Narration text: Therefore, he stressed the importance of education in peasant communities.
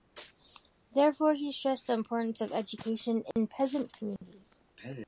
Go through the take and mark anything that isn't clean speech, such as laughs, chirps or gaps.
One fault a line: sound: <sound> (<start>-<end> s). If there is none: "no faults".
sound: dropout (3.3-3.4 s)
sound: dropout (4.2-4.2 s)